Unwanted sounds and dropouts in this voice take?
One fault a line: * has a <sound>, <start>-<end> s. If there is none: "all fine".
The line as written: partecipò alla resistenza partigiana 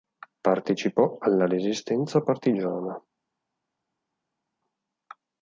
all fine